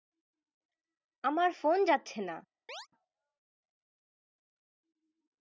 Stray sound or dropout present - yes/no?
yes